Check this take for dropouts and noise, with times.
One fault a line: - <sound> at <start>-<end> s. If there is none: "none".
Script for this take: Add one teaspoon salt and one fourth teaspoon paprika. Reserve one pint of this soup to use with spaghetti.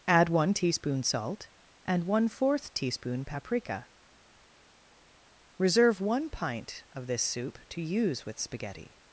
none